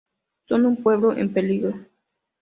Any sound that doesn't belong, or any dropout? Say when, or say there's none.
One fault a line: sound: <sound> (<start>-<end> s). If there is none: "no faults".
no faults